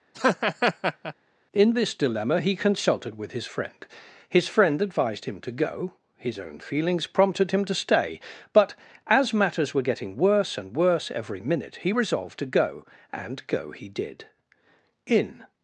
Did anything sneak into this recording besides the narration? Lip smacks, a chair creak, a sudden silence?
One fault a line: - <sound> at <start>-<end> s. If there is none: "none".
- laugh at 0.1-1.1 s